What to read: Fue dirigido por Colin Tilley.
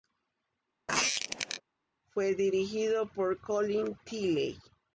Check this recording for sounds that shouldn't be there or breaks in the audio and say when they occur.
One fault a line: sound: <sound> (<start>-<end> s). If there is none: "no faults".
sound: squeak (0.9-1.6 s)